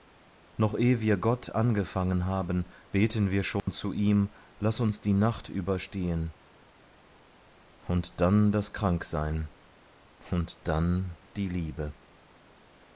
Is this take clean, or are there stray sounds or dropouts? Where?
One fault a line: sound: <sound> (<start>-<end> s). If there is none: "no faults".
sound: dropout (3.6-3.7 s)